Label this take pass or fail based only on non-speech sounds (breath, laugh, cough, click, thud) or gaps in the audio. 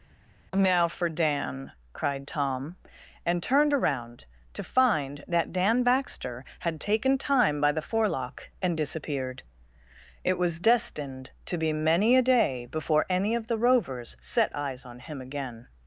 pass